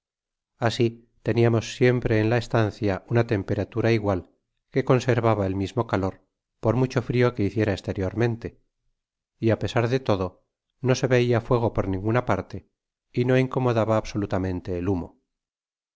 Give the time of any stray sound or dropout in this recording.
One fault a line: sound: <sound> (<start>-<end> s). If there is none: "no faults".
no faults